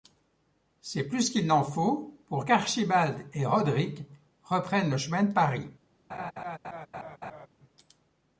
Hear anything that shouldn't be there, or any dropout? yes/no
yes